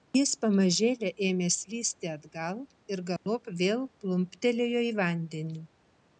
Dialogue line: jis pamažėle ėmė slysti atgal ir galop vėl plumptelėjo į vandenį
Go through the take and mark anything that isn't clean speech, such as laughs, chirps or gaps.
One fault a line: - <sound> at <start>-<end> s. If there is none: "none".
- dropout at 3.2-3.3 s